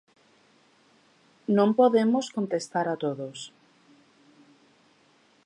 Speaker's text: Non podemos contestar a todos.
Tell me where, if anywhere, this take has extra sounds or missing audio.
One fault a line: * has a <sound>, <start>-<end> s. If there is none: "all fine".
all fine